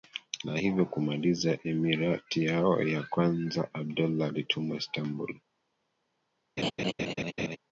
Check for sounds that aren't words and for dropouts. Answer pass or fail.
fail